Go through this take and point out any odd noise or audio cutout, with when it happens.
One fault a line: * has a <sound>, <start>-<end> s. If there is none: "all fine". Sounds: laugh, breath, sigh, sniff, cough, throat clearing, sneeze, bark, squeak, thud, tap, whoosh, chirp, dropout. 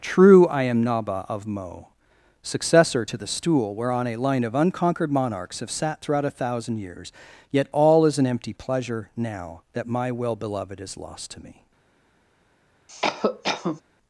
* has a cough, 12.9-13.8 s